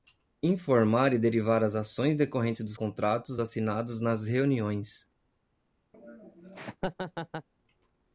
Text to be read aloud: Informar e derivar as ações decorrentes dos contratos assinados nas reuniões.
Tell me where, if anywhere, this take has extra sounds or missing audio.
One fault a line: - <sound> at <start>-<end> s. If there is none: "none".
- laugh at 5.9-7.5 s